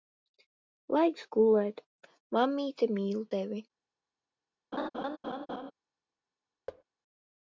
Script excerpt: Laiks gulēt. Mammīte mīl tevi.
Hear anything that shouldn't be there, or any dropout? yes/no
yes